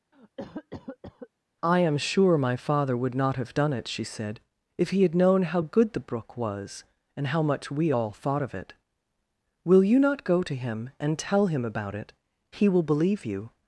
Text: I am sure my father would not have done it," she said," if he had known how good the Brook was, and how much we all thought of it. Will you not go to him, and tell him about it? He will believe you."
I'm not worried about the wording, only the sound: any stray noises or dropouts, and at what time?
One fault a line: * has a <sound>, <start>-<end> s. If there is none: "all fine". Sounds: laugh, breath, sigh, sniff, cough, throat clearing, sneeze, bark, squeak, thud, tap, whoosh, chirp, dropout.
* has a cough, 0.1-1.3 s